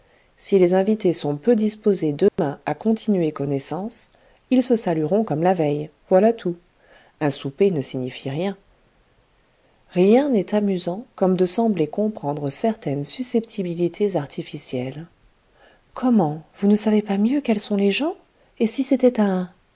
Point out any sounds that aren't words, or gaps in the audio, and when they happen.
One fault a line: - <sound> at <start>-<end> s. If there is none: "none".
- dropout at 2.3-2.4 s